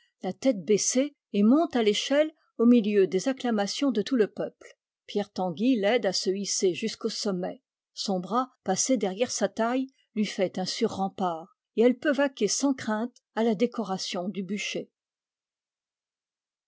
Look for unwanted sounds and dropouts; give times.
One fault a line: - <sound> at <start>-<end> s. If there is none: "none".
none